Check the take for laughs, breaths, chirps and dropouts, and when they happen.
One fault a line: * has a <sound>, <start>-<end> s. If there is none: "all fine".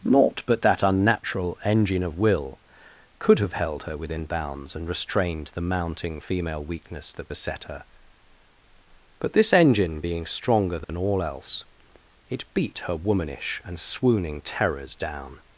* has a dropout, 10.8-10.9 s